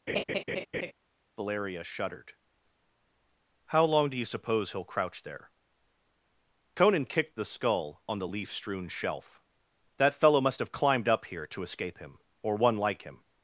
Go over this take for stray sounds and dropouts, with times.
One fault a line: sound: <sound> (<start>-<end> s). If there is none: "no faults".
sound: laugh (0.1-0.9 s)